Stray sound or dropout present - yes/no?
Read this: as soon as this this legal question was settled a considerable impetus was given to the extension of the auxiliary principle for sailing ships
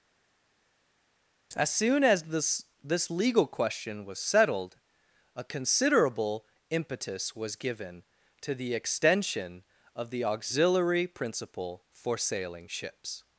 no